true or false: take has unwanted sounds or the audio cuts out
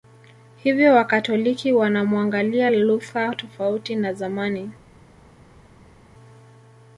false